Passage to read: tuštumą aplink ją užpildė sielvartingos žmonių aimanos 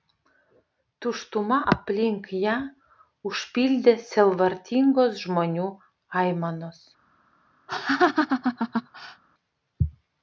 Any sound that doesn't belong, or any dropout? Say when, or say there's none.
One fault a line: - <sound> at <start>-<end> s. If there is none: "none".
- laugh at 7.7-9.2 s